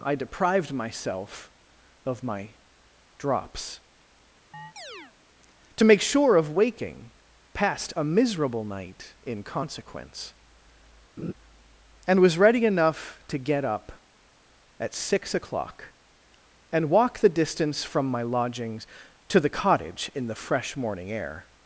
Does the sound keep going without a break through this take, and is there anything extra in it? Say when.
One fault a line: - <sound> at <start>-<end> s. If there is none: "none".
- chirp at 4.5-5.1 s
- laugh at 11.2-11.3 s